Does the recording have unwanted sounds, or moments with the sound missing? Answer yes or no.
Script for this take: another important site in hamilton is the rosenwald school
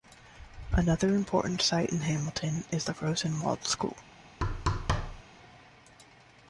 yes